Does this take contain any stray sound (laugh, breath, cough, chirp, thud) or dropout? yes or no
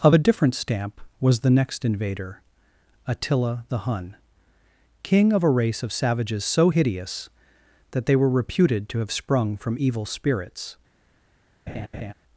yes